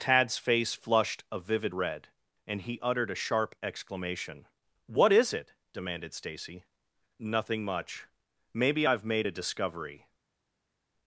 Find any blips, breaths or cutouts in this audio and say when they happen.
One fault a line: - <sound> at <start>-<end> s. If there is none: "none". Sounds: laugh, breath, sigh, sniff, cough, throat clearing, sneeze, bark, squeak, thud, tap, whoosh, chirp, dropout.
none